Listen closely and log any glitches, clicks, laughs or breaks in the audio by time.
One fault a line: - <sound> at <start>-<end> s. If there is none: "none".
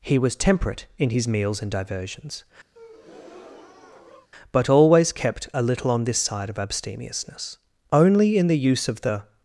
- breath at 2.7-4.3 s